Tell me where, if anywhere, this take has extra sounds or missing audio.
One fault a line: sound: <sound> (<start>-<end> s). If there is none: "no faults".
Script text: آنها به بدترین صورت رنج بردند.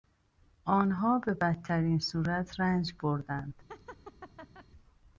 sound: laugh (3.7-4.7 s)